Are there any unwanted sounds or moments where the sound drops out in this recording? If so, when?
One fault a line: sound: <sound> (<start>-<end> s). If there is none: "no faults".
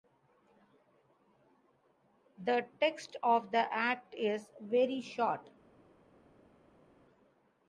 no faults